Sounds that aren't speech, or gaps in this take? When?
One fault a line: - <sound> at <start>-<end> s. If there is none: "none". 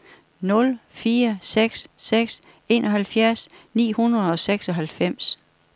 none